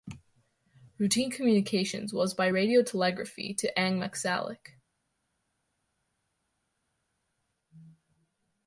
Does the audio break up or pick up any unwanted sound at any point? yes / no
no